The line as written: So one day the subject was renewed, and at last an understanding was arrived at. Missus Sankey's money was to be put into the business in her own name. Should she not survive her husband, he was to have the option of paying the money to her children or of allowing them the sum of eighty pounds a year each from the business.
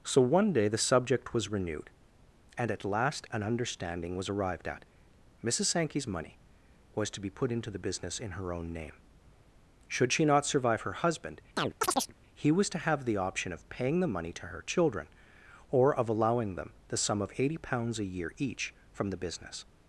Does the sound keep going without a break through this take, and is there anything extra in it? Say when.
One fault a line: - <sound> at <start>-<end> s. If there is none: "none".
- chirp at 11.6-12.1 s